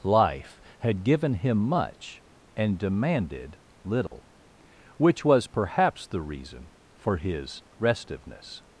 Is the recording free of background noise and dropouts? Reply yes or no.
no